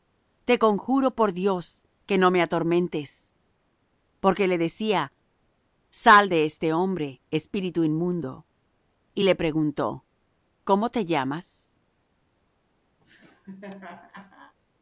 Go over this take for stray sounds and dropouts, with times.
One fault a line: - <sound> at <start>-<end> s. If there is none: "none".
- laugh at 13.0-14.5 s